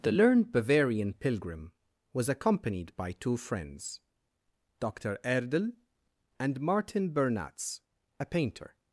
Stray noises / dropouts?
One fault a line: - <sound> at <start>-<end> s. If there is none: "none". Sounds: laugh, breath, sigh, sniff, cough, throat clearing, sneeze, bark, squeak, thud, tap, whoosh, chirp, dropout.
none